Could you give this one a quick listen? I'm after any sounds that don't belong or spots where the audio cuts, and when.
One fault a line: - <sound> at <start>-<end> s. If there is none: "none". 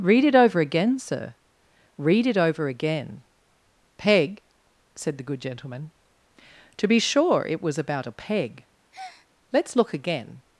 - breath at 8.9-9.3 s